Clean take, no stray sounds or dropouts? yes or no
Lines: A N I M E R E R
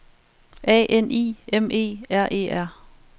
yes